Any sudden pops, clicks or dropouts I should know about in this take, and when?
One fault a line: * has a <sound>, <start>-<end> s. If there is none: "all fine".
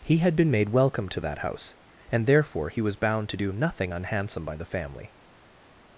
all fine